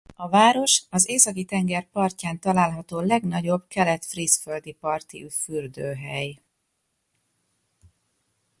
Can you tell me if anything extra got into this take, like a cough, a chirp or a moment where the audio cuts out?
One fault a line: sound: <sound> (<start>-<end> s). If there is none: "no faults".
no faults